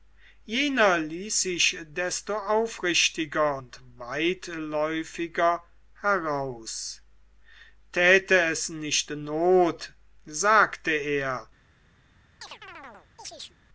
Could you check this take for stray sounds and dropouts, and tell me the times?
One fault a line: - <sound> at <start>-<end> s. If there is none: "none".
- chirp at 12.4-13.6 s